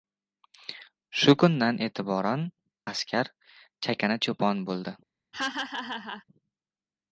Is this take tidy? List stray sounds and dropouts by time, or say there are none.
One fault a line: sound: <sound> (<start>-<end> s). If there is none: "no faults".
sound: laugh (5.3-6.2 s)